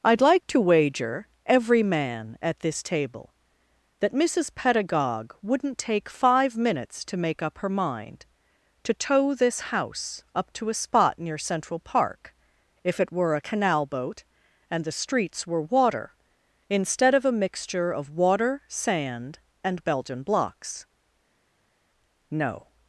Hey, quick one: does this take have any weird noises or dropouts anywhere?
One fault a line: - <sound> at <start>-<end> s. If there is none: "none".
none